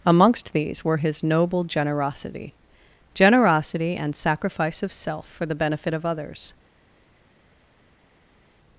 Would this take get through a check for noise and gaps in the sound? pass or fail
pass